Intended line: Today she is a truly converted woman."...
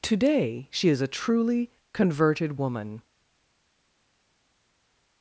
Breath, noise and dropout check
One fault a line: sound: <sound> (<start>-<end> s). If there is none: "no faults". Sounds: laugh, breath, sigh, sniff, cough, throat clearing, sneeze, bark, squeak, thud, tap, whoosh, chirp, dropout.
no faults